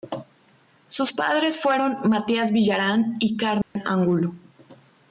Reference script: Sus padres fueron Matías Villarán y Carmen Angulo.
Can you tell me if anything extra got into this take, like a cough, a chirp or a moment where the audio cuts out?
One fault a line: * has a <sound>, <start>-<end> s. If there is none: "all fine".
* has a dropout, 3.6-3.8 s